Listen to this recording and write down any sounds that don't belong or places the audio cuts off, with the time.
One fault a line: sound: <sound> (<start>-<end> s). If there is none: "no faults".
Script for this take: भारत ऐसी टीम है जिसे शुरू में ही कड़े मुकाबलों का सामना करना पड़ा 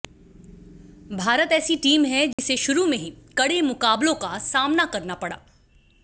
sound: dropout (2.3-2.4 s)